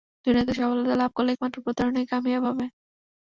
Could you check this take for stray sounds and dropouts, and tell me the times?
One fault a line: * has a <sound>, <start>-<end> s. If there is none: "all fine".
all fine